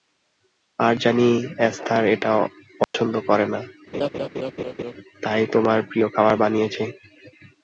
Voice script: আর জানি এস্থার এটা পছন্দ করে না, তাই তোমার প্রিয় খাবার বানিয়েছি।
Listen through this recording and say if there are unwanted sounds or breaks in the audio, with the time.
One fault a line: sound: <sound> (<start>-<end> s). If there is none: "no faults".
sound: dropout (2.8-2.9 s)
sound: laugh (3.9-4.9 s)